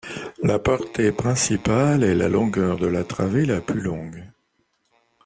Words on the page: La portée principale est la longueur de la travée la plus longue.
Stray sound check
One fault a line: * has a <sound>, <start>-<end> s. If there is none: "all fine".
all fine